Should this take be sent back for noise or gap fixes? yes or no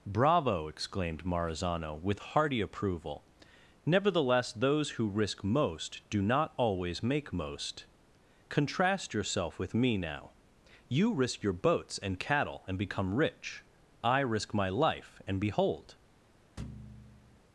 yes